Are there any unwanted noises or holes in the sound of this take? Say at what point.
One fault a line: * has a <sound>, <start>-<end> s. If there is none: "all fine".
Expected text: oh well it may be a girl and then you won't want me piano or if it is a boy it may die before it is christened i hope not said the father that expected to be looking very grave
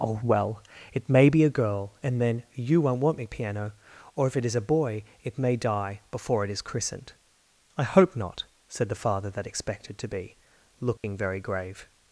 * has a dropout, 11.0-11.0 s